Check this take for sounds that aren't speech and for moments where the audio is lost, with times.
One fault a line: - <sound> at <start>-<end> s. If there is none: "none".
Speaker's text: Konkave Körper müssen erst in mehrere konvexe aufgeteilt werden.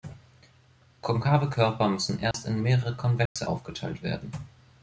- dropout at 2.3-2.3 s
- dropout at 3.3-3.4 s